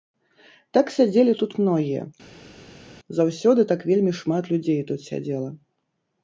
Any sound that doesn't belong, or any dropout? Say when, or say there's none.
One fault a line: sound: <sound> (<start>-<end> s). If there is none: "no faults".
no faults